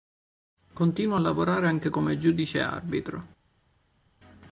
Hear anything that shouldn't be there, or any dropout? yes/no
no